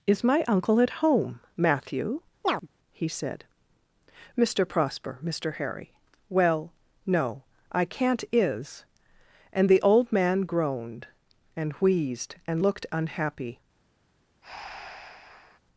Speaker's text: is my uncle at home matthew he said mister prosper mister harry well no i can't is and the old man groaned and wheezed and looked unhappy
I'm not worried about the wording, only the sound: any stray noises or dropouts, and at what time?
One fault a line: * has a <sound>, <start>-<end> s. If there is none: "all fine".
* has a chirp, 2.4-2.7 s
* has a breath, 14.4-15.6 s